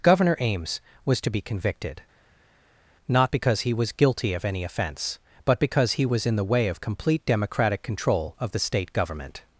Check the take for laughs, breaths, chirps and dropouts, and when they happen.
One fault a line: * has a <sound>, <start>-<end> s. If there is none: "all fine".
all fine